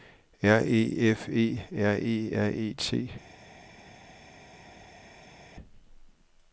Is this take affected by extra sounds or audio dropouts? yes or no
no